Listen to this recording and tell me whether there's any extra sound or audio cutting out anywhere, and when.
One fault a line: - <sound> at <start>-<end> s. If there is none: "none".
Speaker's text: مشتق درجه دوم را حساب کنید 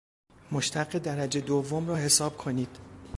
none